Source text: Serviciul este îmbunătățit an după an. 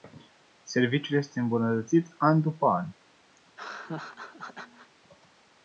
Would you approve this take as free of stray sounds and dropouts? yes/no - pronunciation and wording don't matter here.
no